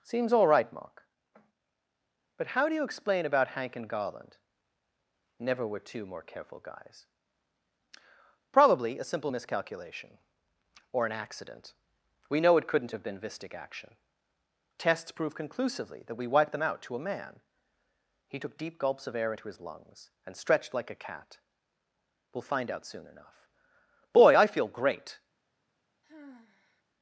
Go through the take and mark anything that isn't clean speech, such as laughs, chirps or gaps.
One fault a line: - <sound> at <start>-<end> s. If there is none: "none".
- sigh at 26.0-26.8 s